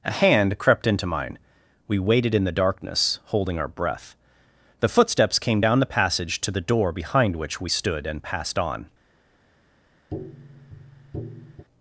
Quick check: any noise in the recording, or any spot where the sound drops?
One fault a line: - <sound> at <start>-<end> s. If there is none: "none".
- tap at 10.1-11.7 s